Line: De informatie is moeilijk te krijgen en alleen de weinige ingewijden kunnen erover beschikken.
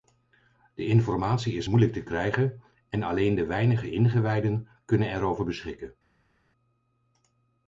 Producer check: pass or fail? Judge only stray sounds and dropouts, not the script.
pass